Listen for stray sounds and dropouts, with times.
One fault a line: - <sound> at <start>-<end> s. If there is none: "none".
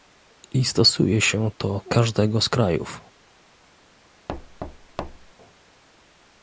- thud at 4.3-5.3 s